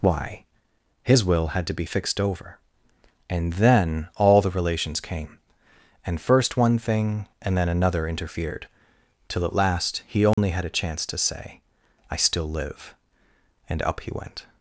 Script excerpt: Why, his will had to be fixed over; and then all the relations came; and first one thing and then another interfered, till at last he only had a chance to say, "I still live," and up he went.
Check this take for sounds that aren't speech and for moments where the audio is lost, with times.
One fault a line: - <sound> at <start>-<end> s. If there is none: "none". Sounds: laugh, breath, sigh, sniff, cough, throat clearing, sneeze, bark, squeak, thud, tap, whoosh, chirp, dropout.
- dropout at 10.3-10.4 s